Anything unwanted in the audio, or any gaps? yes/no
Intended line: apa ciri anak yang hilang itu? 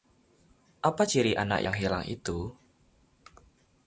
no